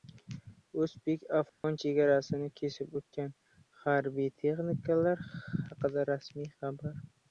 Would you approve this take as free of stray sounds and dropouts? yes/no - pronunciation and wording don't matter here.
no